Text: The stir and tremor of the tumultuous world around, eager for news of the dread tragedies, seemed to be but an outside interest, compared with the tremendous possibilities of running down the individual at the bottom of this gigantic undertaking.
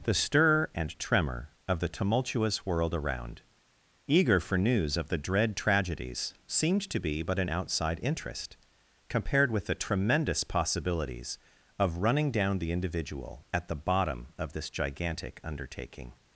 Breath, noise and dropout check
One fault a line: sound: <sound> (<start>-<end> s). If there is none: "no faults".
no faults